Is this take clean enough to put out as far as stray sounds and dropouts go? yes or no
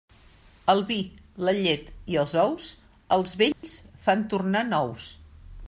no